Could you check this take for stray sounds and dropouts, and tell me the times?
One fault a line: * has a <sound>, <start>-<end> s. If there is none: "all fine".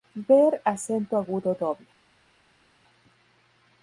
all fine